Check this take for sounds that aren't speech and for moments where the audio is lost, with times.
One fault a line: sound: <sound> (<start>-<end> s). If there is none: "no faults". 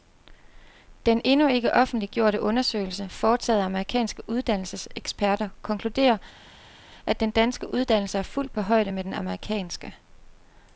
no faults